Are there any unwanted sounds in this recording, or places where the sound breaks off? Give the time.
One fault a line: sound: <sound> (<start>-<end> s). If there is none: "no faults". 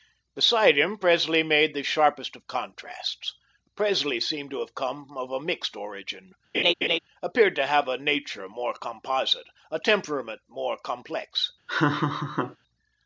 sound: laugh (6.5-7.0 s)
sound: laugh (11.7-12.6 s)